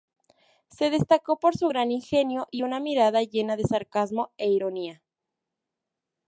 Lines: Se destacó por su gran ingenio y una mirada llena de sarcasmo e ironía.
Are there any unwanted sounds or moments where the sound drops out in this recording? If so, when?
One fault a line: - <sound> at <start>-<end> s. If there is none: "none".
none